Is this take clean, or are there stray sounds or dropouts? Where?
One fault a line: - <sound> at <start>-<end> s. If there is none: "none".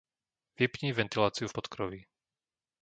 none